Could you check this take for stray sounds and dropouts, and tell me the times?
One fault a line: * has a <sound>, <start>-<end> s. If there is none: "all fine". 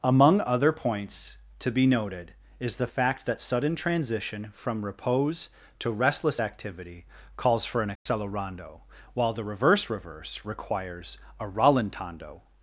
* has a dropout, 8.0-8.1 s